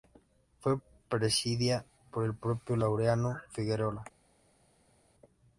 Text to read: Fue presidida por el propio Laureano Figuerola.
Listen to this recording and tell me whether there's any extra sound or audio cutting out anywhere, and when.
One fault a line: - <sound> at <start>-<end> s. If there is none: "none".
none